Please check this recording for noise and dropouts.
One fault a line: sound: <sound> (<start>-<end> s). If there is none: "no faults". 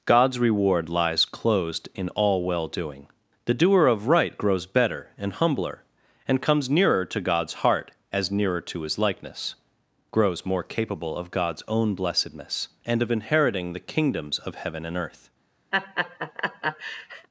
sound: laugh (15.7-17.3 s)